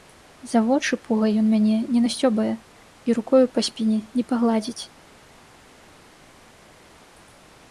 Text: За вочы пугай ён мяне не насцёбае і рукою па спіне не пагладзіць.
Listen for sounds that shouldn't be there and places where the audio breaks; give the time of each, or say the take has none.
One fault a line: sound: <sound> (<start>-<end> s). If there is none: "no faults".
no faults